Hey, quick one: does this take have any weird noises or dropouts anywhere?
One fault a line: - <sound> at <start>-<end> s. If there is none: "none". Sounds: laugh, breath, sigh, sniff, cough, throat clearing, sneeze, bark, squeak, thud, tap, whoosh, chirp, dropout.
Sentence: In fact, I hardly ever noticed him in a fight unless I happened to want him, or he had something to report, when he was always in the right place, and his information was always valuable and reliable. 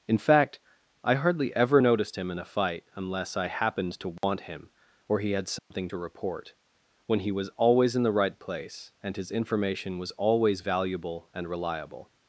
- dropout at 4.2-4.2 s
- dropout at 5.6-5.7 s